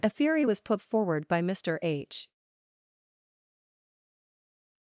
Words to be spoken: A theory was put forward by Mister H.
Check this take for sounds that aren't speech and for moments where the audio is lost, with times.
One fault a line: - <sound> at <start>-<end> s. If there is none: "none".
none